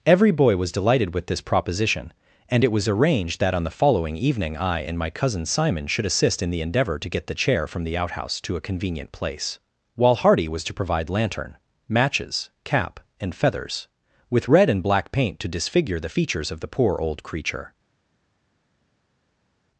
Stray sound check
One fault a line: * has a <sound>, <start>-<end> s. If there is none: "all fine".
all fine